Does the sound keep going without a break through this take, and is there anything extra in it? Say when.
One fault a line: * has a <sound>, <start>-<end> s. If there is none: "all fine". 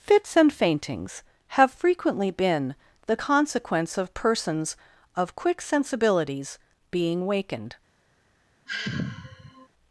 * has a sigh, 8.7-9.7 s